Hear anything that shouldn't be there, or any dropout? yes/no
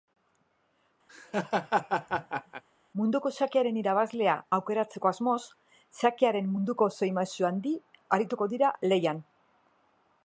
yes